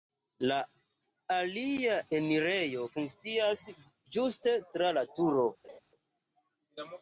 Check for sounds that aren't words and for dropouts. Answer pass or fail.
fail